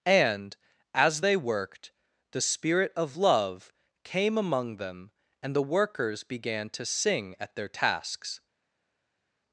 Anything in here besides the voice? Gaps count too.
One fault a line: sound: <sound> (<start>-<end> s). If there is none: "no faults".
no faults